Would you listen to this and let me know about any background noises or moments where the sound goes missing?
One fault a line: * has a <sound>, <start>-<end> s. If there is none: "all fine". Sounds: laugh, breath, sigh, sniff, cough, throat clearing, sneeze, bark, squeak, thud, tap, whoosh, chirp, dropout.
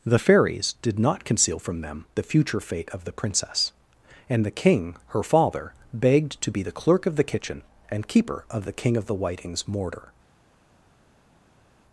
all fine